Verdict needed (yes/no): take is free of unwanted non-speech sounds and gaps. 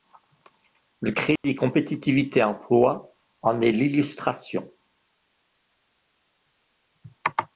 no